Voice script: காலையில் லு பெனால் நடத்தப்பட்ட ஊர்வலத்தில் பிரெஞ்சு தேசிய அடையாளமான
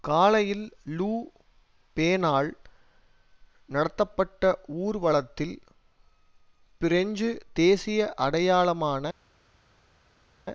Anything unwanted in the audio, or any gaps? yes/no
no